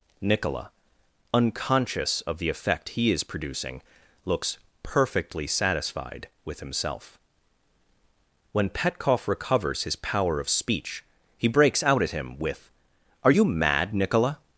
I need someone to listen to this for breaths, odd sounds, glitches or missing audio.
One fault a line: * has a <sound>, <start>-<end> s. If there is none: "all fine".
all fine